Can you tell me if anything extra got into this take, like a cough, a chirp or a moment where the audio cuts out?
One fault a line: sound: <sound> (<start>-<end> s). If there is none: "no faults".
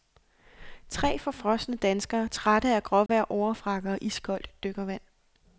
sound: dropout (3.1-3.1 s)